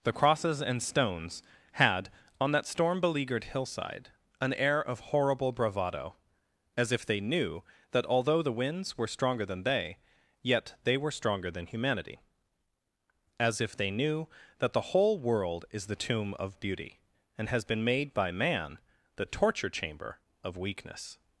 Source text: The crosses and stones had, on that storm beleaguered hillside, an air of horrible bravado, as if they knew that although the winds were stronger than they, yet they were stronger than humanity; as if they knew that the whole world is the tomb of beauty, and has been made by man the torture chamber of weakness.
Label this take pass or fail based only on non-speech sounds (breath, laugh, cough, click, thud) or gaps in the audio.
pass